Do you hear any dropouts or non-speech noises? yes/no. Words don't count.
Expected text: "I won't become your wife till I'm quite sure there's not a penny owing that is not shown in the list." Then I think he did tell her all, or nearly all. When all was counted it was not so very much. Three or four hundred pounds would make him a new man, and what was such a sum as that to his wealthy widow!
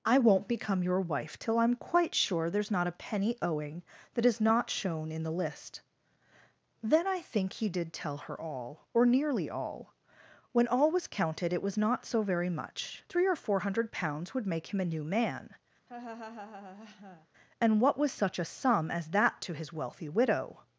yes